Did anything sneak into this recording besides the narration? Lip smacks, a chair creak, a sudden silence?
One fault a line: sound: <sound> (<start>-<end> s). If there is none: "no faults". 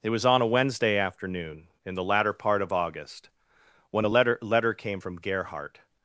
no faults